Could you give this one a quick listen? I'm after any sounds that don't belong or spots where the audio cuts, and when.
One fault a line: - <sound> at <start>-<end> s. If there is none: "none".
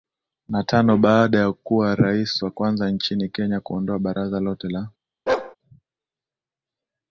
- bark at 5.3-5.6 s